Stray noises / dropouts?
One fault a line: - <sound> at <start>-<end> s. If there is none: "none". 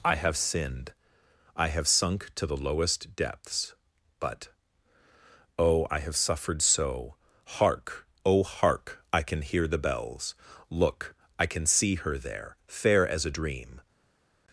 none